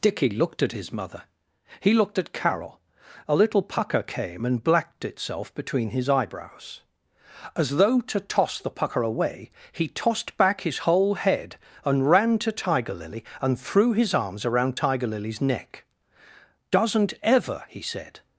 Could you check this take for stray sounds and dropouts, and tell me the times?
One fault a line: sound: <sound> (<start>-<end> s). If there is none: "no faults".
no faults